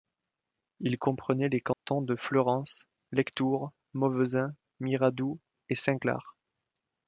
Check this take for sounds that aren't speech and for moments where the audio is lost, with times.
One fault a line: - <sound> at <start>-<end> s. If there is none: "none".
- dropout at 1.7-1.9 s